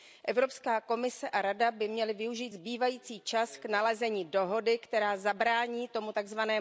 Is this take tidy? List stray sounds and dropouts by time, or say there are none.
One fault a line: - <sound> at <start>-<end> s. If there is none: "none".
none